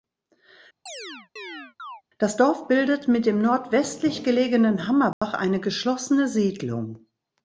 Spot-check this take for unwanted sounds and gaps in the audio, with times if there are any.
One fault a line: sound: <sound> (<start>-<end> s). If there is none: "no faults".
sound: chirp (0.9-2.0 s)
sound: dropout (5.1-5.2 s)